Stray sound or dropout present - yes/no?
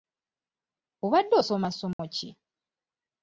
yes